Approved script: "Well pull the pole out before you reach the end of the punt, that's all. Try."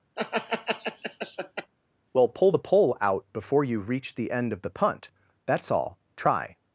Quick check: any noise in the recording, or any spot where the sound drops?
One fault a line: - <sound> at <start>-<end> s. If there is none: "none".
- laugh at 0.2-1.7 s